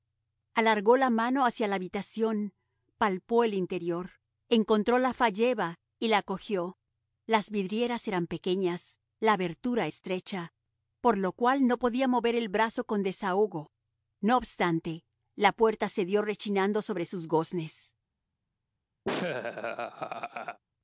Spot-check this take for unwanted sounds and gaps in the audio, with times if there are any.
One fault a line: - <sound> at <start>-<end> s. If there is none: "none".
- laugh at 19.0-20.6 s